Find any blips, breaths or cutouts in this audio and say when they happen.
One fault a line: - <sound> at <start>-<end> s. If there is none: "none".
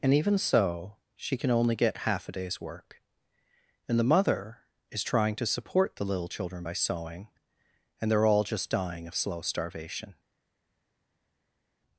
none